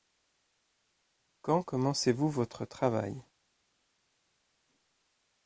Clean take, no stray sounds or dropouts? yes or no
yes